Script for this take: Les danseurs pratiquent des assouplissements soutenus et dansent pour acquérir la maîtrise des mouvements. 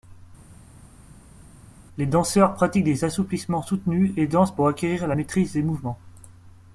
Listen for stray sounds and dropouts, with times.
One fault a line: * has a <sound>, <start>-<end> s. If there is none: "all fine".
all fine